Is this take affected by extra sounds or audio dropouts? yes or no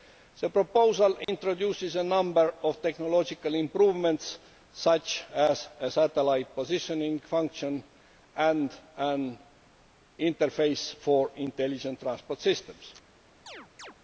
yes